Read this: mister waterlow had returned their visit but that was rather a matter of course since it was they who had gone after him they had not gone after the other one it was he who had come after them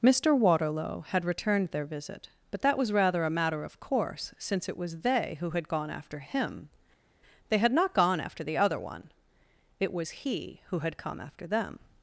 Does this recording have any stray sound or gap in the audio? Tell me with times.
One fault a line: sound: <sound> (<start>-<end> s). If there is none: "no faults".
no faults